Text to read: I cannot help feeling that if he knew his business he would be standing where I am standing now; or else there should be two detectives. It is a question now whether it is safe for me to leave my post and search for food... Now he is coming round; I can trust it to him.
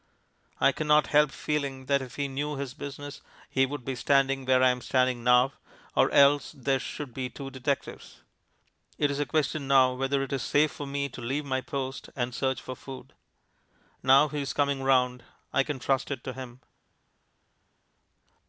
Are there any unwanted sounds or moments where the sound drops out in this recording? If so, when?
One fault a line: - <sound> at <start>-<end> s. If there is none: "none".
none